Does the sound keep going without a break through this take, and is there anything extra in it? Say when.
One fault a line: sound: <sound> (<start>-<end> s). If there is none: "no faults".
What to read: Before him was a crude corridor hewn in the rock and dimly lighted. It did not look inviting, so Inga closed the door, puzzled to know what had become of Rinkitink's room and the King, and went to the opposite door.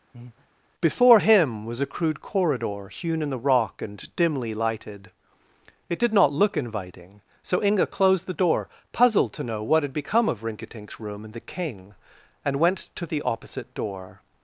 sound: breath (0.1-0.5 s)